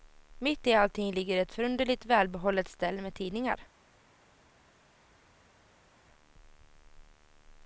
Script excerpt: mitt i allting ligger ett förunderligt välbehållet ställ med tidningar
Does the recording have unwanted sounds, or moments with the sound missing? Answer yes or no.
no